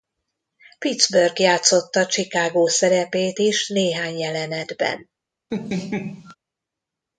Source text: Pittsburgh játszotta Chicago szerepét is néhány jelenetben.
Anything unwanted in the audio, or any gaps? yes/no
yes